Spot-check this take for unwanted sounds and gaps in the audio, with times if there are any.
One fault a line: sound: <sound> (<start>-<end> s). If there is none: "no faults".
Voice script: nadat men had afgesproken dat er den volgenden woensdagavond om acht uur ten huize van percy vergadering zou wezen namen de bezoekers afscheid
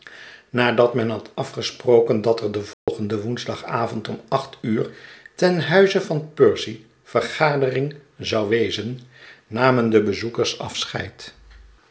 sound: dropout (2.7-2.9 s)